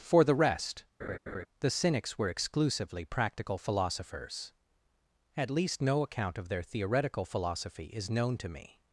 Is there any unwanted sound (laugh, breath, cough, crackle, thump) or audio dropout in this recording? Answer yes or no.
yes